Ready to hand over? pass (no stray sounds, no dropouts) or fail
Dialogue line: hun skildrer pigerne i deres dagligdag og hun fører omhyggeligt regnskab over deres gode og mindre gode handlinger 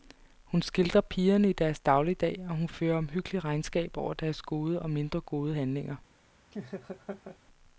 fail